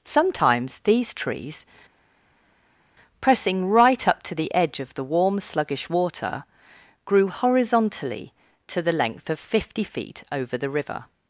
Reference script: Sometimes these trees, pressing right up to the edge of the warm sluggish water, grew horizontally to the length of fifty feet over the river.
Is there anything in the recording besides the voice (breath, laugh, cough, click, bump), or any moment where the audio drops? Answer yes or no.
no